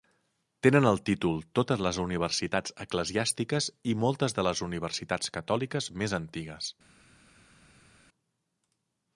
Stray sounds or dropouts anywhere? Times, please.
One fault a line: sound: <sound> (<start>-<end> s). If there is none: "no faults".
no faults